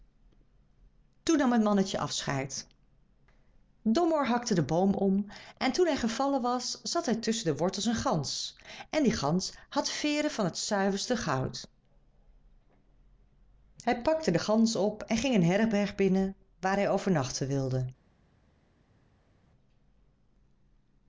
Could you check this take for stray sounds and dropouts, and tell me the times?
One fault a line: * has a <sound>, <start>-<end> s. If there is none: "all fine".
all fine